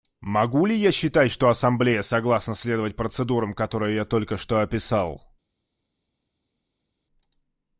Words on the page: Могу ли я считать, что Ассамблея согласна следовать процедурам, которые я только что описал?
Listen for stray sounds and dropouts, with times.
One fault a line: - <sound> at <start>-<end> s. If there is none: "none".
none